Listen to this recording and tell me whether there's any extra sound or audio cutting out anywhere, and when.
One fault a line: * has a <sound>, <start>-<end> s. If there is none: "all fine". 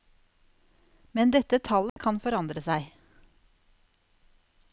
* has a dropout, 1.9-2.0 s